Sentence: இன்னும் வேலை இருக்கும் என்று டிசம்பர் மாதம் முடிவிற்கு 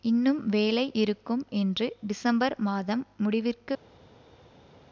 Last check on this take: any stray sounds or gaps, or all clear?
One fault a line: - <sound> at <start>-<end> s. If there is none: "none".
none